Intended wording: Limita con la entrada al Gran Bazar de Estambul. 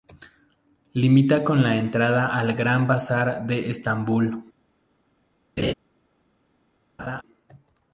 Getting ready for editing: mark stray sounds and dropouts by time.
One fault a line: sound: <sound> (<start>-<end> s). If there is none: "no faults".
sound: laugh (5.6-5.7 s)
sound: laugh (7.0-7.2 s)